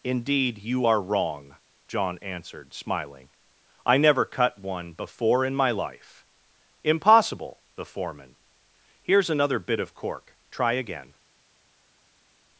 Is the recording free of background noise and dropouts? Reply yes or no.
yes